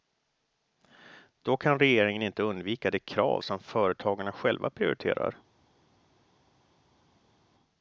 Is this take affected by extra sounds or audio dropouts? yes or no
no